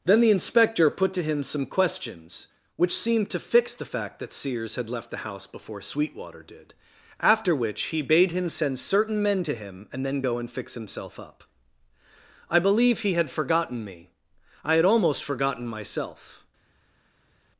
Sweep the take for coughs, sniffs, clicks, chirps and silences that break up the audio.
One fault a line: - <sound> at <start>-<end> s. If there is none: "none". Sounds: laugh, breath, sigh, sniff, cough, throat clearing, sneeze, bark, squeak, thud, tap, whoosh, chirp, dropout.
none